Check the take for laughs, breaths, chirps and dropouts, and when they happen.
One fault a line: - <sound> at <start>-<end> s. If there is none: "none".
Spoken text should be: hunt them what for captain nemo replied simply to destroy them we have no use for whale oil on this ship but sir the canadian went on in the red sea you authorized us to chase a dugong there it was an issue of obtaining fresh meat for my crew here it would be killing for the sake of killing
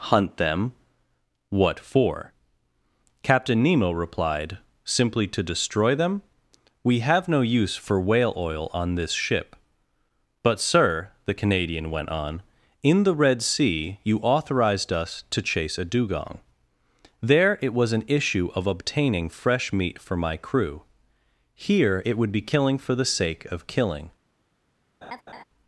- laugh at 25.0-25.4 s